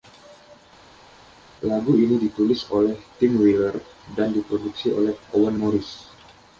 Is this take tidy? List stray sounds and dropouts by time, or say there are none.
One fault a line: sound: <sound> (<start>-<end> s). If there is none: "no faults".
no faults